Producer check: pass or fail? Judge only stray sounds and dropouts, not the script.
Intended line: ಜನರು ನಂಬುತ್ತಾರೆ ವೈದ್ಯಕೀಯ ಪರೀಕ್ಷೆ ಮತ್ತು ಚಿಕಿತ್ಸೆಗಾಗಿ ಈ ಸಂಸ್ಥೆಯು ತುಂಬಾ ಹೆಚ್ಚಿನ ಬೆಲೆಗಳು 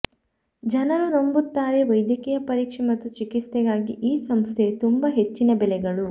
pass